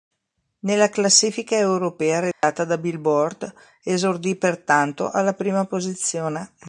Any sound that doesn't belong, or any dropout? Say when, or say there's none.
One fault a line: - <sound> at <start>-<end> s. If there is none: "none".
- dropout at 2.3-2.4 s